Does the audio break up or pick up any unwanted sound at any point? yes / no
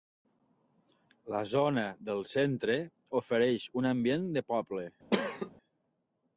yes